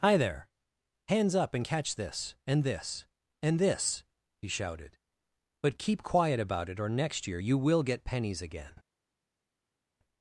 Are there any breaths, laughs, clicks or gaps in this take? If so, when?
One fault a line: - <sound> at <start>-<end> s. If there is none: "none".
none